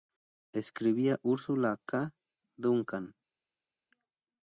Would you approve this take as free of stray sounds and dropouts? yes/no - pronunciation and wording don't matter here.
yes